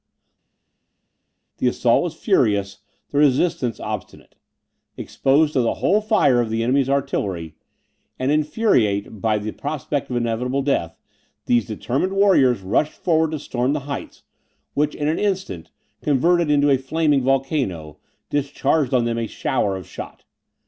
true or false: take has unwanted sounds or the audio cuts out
false